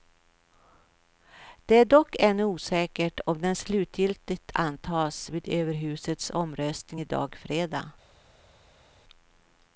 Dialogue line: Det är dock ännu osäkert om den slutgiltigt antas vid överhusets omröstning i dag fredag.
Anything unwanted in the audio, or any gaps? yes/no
no